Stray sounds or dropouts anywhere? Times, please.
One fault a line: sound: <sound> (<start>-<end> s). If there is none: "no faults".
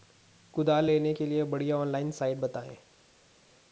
no faults